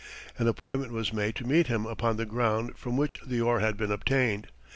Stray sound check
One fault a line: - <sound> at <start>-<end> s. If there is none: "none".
- dropout at 0.6-0.7 s
- dropout at 3.1-3.2 s